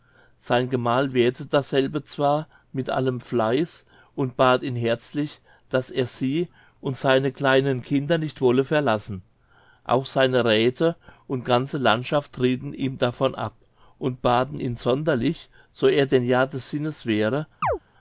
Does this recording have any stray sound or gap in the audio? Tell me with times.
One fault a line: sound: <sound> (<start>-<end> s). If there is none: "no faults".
sound: chirp (17.6-17.8 s)